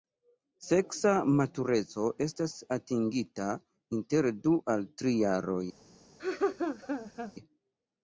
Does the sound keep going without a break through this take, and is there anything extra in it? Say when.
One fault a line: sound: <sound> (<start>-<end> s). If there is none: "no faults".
sound: laugh (6.2-7.3 s)